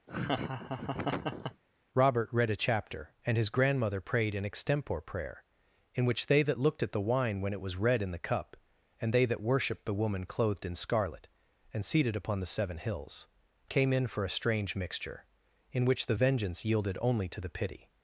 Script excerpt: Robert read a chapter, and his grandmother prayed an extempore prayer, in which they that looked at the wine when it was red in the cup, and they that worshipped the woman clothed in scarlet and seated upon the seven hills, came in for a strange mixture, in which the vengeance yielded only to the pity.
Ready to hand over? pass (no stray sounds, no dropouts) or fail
fail